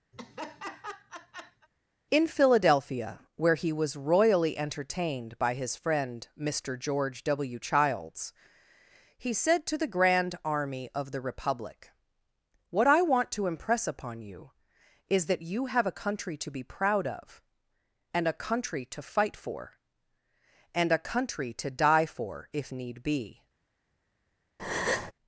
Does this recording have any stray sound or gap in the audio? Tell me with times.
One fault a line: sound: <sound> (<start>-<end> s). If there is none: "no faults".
sound: laugh (0.1-1.7 s)
sound: breath (24.6-25.1 s)